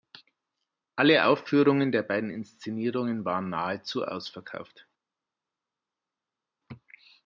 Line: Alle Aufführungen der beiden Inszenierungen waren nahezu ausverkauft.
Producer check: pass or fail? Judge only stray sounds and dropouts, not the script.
pass